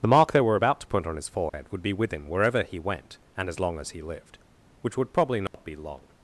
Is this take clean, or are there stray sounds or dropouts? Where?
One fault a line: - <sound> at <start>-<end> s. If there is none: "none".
- dropout at 1.5-1.5 s
- dropout at 5.5-5.5 s